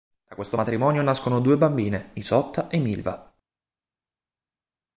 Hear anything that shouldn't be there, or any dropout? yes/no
no